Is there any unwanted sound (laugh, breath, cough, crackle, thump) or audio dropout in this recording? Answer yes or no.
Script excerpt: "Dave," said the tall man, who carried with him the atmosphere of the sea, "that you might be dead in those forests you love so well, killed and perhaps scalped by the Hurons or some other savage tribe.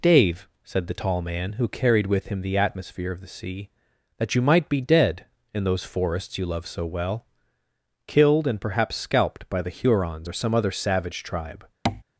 yes